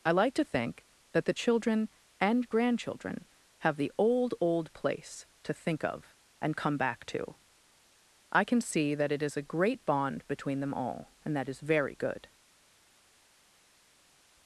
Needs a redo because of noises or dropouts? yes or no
no